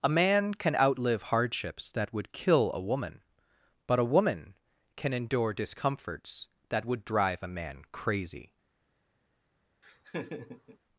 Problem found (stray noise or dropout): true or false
true